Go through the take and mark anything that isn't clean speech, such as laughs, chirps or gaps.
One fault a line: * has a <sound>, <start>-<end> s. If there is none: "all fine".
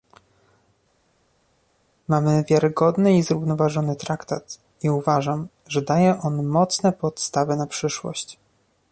all fine